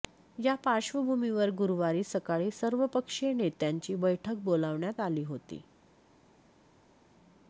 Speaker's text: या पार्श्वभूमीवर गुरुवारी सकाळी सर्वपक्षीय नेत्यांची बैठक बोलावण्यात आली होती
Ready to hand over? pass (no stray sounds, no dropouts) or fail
pass